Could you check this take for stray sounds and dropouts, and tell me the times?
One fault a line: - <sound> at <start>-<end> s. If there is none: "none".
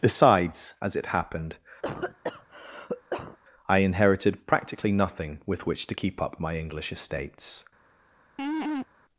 - cough at 1.8-3.4 s
- laugh at 8.4-8.9 s